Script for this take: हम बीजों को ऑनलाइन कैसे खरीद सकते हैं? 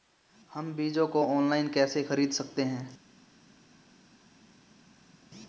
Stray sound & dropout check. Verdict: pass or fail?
pass